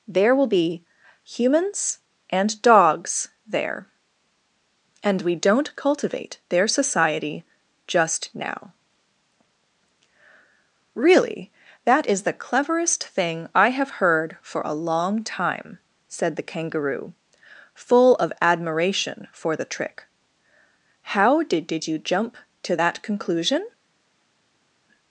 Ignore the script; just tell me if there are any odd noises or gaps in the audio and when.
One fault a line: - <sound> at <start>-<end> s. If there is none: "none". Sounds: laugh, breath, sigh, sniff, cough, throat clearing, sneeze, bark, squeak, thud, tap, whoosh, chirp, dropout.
none